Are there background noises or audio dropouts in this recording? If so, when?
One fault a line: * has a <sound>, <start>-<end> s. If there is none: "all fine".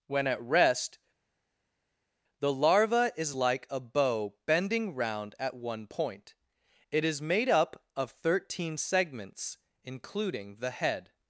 all fine